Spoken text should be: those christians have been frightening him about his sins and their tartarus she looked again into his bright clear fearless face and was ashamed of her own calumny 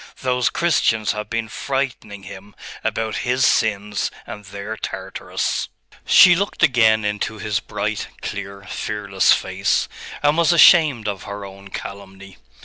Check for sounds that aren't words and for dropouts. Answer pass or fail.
pass